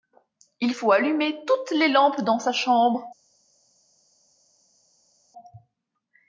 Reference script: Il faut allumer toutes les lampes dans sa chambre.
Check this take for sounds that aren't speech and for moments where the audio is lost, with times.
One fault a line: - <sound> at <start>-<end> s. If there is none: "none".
none